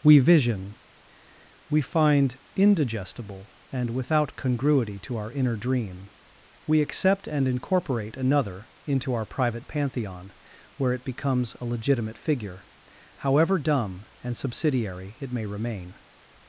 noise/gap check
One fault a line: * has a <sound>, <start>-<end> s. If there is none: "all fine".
all fine